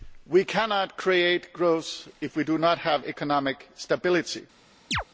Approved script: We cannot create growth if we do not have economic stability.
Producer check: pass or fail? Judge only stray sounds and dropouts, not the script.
fail